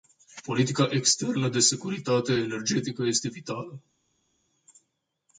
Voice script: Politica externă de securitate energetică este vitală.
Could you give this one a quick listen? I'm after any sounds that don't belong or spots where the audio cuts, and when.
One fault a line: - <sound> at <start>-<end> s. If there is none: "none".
none